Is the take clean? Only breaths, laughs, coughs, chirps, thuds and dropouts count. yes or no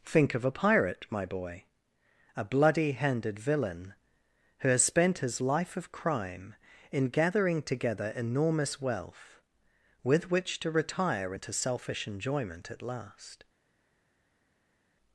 yes